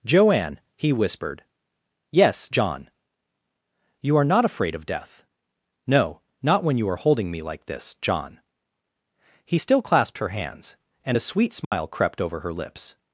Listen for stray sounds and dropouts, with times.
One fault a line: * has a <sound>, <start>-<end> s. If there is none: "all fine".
* has a dropout, 11.6-11.7 s